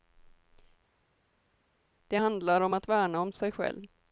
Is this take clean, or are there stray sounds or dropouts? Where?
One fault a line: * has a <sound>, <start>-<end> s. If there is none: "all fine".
all fine